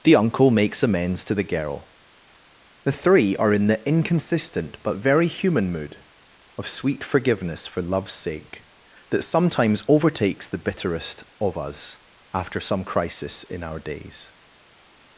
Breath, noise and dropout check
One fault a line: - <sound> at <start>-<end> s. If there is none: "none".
none